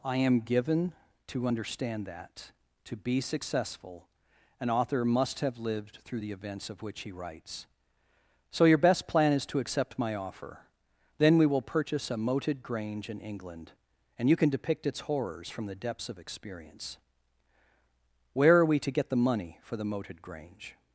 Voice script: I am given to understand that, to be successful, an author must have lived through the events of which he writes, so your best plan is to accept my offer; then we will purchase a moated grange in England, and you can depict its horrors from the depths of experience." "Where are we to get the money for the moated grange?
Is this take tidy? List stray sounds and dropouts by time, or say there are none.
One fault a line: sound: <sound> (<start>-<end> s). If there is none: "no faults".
no faults